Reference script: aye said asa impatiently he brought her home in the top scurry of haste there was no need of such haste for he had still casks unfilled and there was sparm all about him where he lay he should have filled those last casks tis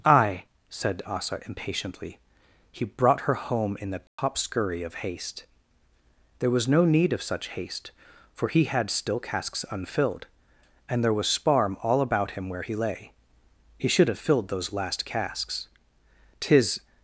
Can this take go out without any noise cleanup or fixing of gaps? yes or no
no